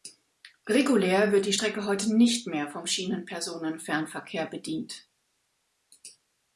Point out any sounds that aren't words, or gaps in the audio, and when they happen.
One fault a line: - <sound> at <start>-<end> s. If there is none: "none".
none